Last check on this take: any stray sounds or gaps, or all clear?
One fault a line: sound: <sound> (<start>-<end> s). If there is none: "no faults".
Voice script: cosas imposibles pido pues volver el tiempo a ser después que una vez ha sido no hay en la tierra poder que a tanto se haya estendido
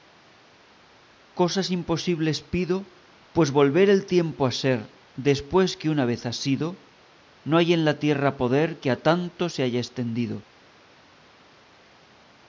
no faults